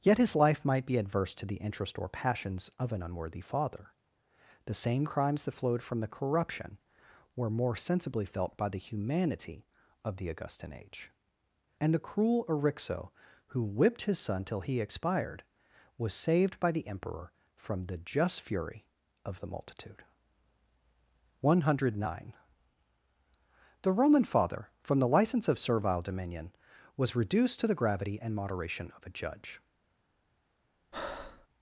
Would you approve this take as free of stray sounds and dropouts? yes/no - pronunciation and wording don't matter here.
no